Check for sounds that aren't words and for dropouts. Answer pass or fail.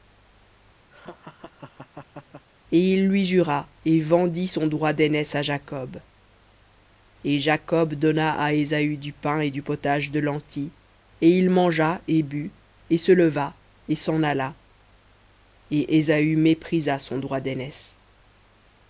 fail